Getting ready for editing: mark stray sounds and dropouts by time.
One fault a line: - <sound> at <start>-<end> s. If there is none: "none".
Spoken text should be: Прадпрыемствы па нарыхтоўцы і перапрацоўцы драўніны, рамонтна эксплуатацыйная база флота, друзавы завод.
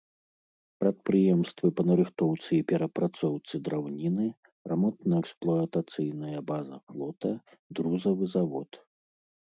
none